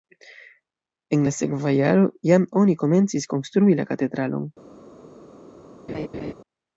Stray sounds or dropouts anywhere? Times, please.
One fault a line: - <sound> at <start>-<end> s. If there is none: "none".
- laugh at 5.9-6.3 s